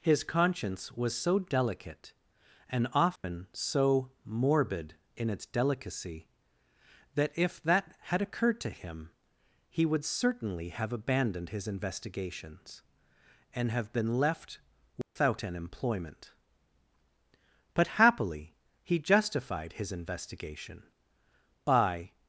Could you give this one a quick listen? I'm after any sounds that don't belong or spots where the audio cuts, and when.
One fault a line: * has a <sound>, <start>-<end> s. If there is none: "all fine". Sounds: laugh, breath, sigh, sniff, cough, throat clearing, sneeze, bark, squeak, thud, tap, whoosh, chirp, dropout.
* has a dropout, 3.2-3.2 s
* has a dropout, 15.0-15.2 s